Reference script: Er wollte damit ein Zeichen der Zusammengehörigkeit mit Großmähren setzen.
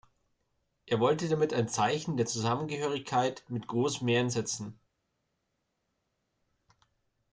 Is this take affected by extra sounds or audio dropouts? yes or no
no